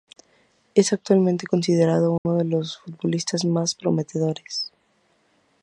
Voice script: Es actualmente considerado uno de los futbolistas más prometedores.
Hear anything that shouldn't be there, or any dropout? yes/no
yes